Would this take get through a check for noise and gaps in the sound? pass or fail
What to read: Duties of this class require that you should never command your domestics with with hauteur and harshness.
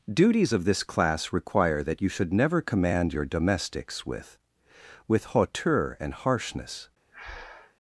fail